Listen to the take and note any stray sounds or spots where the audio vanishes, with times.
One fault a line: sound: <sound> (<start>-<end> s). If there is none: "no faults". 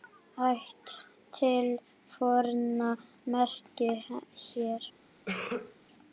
sound: cough (5.3-5.8 s)